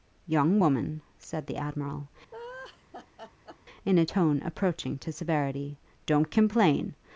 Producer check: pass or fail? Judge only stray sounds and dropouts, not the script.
fail